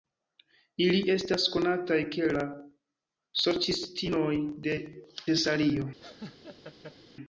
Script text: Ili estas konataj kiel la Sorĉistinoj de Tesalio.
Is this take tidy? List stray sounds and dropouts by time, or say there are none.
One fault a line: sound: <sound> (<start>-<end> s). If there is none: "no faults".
sound: laugh (6.0-7.0 s)